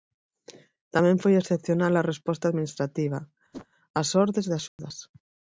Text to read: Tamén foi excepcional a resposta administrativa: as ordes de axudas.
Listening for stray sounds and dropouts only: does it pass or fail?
fail